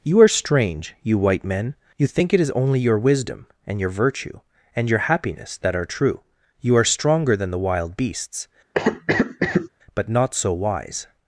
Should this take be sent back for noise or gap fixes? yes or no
yes